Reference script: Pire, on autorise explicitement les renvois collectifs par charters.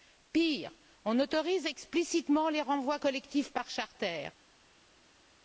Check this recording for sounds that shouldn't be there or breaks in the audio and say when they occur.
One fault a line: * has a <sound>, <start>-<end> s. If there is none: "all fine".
all fine